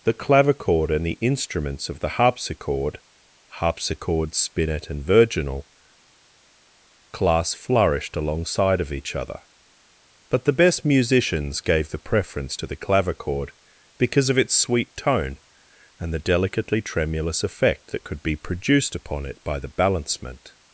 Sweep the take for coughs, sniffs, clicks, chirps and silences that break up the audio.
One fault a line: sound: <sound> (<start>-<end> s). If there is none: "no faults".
no faults